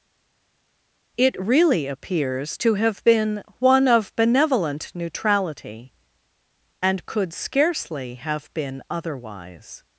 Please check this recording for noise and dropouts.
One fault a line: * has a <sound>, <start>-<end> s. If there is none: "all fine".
all fine